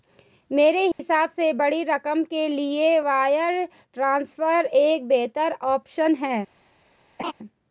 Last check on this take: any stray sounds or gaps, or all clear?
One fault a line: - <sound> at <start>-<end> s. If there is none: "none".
- dropout at 0.9-1.0 s
- laugh at 7.2-7.3 s